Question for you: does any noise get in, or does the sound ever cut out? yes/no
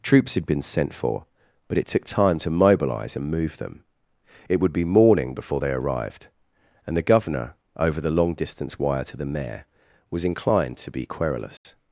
yes